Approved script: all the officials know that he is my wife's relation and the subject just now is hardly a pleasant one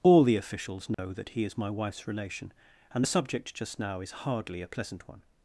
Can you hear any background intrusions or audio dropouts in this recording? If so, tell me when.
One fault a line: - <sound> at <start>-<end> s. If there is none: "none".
- dropout at 0.9-1.0 s